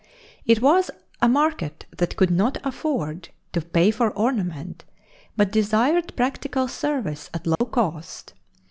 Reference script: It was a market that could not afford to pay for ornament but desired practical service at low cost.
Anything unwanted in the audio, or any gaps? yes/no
yes